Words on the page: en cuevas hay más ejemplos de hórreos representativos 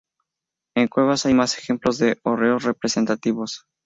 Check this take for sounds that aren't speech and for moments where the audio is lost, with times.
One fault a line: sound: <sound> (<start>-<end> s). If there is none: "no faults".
no faults